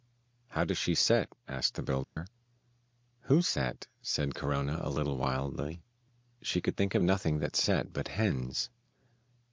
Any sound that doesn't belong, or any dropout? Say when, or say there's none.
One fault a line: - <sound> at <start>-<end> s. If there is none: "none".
- dropout at 2.0-2.2 s